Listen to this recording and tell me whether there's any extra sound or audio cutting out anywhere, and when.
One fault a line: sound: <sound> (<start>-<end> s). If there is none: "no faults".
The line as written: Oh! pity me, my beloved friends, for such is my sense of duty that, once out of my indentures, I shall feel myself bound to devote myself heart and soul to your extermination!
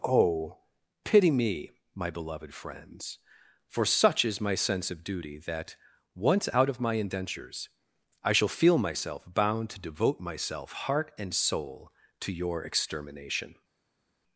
no faults